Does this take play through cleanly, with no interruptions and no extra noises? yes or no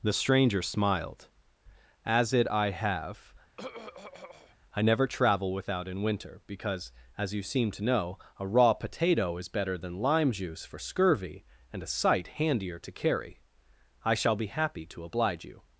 no